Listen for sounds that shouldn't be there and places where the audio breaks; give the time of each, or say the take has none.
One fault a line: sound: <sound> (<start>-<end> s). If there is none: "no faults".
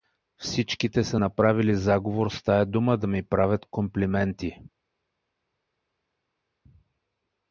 no faults